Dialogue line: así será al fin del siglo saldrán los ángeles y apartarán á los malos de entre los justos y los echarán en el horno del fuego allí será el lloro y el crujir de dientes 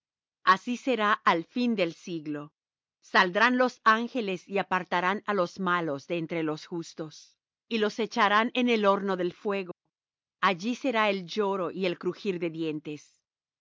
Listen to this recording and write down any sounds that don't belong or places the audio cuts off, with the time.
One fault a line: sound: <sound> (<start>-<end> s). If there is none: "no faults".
sound: dropout (9.7-9.9 s)